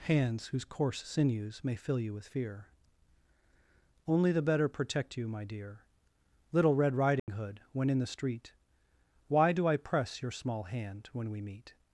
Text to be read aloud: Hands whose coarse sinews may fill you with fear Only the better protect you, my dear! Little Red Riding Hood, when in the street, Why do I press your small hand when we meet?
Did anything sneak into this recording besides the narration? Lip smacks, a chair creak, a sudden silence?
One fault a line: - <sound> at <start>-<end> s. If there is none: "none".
- dropout at 7.2-7.3 s